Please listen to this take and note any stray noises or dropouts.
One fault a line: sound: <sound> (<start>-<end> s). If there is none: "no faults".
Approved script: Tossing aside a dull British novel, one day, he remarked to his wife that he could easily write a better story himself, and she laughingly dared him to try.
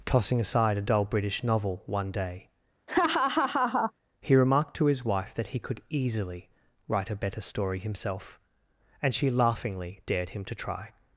sound: laugh (2.9-3.9 s)